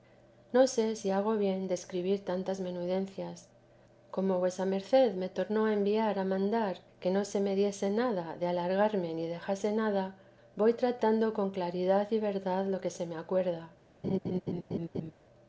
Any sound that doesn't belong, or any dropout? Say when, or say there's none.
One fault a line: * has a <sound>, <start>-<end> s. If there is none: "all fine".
* has a laugh, 14.0-15.1 s